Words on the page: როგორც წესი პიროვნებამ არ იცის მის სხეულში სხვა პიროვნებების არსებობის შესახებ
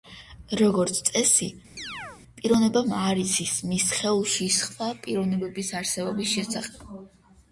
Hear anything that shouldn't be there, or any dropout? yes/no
yes